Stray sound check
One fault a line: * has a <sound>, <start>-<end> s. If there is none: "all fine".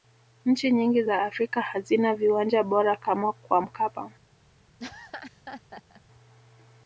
* has a laugh, 4.8-6.0 s